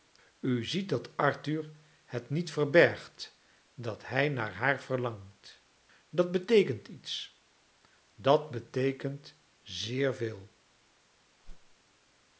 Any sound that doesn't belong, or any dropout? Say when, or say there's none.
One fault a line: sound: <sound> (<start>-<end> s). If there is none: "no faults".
sound: whoosh (11.4-11.8 s)